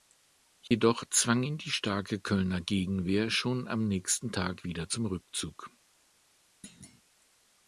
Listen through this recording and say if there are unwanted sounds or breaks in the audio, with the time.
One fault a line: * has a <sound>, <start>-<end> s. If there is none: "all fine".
* has a dropout, 0.7-0.7 s
* has a thud, 6.6-7.0 s